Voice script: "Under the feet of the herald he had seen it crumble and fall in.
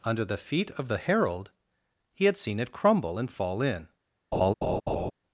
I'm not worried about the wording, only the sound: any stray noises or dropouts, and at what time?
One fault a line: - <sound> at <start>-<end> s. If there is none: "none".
- laugh at 4.3-5.1 s